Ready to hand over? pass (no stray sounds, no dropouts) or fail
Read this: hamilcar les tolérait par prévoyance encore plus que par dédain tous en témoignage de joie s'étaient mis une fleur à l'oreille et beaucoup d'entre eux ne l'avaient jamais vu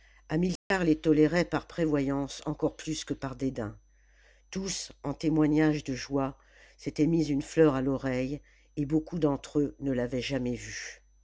fail